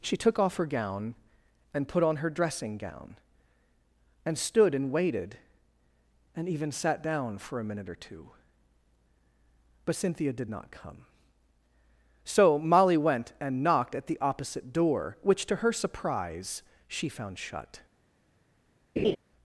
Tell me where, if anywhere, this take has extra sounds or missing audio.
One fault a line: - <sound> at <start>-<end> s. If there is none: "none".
- laugh at 19.0-19.2 s